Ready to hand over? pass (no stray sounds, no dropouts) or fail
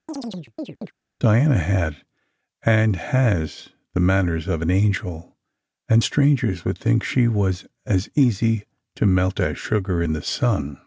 fail